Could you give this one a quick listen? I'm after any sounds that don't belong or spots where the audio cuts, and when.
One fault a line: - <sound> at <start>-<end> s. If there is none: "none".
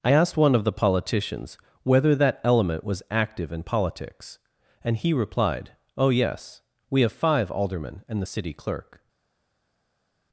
none